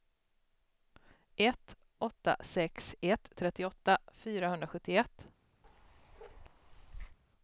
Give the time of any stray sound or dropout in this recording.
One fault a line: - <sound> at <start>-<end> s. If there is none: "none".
- bark at 5.6-7.2 s